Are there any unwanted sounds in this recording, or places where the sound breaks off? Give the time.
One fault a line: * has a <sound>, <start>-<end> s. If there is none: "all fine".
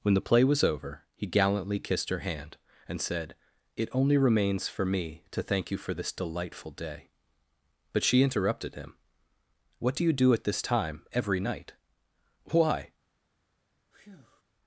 * has a breath, 13.9-14.4 s